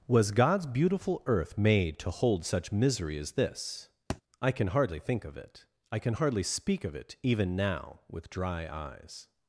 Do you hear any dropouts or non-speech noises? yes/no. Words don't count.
yes